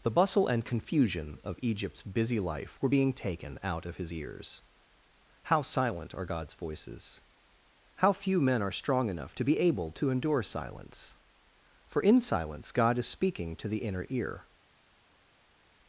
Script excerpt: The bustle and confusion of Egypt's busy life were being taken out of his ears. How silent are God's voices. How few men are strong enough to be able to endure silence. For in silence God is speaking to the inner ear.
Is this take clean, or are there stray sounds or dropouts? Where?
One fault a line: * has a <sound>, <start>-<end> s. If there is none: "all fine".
all fine